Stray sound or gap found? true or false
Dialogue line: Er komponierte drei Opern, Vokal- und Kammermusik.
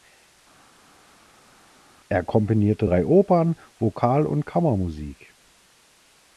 false